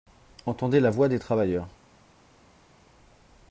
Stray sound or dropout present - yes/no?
no